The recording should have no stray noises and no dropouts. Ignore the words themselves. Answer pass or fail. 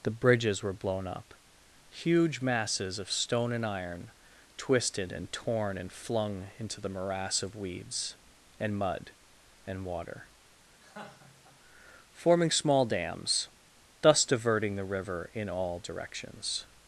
fail